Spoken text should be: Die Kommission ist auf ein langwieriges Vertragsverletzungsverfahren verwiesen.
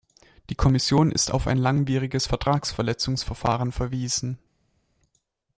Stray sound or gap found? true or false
false